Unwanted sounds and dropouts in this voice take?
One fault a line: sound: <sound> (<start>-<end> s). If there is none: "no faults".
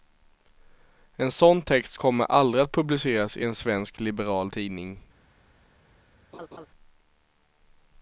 sound: laugh (6.3-6.7 s)